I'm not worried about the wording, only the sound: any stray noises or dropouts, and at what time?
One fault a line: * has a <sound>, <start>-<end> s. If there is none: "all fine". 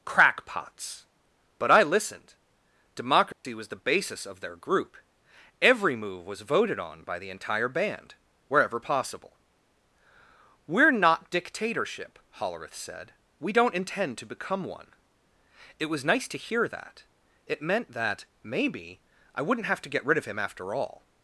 * has a dropout, 3.3-3.4 s